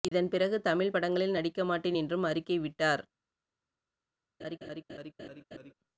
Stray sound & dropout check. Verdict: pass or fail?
fail